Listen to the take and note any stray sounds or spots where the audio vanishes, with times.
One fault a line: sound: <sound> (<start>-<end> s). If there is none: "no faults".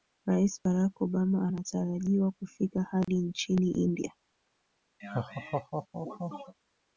sound: dropout (3.0-3.1 s)
sound: laugh (5.0-6.5 s)